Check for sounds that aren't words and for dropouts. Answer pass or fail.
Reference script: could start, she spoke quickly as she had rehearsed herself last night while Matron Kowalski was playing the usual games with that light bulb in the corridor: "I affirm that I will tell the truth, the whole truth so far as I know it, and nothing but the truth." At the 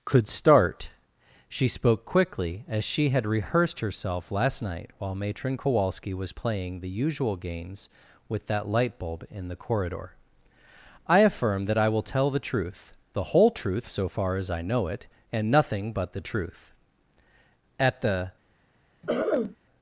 fail